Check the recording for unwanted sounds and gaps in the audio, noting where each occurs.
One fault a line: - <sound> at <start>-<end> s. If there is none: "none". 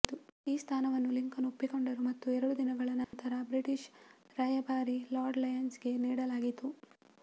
- dropout at 3.0-3.1 s